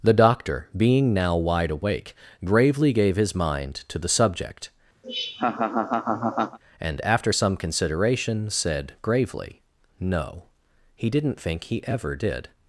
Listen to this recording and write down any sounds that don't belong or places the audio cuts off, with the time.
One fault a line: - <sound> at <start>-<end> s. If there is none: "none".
- laugh at 5.0-6.6 s